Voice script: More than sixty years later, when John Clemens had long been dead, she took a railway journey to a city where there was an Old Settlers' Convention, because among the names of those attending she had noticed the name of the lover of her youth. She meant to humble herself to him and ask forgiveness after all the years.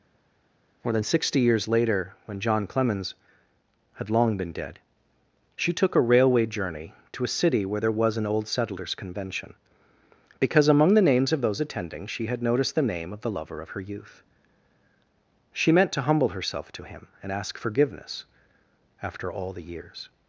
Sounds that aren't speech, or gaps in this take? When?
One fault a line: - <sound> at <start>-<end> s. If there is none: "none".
none